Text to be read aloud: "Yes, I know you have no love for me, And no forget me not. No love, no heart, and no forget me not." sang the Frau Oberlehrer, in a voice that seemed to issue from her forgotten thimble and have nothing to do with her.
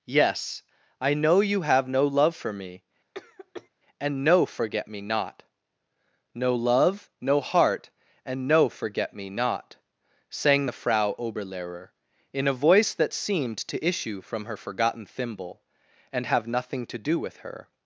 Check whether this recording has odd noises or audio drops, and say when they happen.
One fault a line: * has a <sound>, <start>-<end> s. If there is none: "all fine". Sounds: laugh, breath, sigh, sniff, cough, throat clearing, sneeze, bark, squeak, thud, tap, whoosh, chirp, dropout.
* has a cough, 3.1-3.7 s